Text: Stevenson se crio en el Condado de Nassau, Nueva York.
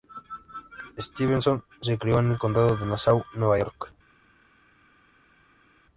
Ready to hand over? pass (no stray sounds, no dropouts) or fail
pass